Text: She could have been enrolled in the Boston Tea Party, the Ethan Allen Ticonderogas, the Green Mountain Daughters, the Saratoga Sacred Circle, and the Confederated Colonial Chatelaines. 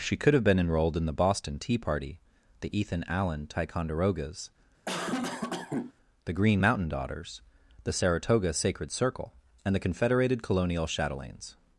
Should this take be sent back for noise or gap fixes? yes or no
yes